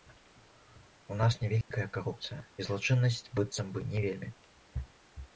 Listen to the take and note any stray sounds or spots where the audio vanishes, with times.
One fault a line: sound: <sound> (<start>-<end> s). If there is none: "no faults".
sound: dropout (1.6-1.7 s)